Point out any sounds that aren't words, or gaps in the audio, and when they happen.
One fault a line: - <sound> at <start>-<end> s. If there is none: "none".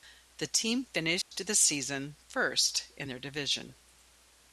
- dropout at 1.2-1.3 s